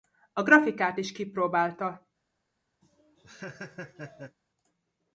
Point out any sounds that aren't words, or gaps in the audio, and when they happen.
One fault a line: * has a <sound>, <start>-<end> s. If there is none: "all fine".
* has a laugh, 2.8-4.4 s